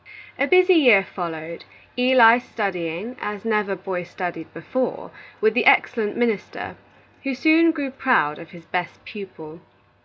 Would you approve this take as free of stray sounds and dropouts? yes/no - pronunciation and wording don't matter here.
yes